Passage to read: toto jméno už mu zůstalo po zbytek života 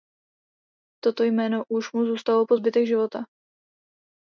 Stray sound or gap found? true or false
false